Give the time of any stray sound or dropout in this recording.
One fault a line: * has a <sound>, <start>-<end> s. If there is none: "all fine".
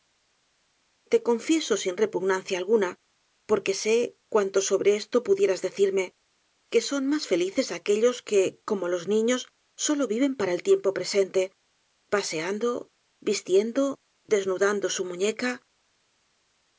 all fine